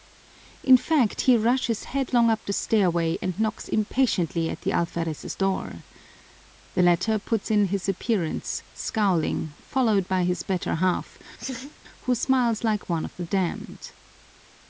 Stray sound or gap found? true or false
true